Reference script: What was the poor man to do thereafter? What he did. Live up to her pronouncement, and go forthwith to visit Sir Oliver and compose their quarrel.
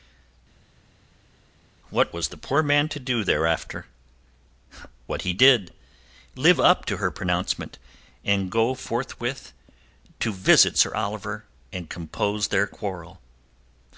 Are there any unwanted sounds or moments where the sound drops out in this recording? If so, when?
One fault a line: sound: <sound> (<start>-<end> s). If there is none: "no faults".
no faults